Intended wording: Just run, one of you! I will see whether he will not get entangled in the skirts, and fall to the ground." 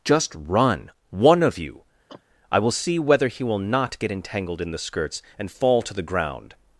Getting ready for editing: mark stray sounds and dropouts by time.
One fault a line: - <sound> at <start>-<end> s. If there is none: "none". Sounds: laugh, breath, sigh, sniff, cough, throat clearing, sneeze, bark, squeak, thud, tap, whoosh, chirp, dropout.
- cough at 2.1-2.2 s